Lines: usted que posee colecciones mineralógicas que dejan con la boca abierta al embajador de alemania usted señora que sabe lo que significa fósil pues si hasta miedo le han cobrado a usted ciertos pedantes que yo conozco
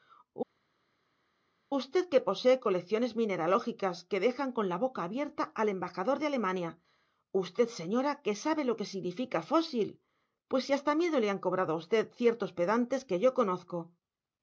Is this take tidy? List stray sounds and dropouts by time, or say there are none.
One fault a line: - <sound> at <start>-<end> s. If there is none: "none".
none